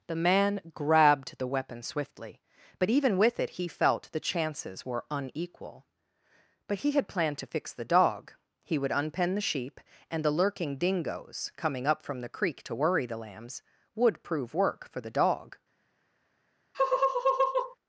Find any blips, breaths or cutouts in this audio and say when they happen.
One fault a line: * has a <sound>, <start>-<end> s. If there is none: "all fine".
* has a laugh, 16.7-17.8 s